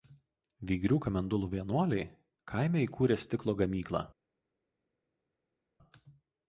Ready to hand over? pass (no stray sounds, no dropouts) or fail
pass